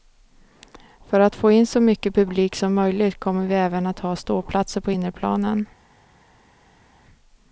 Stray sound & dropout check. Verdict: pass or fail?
pass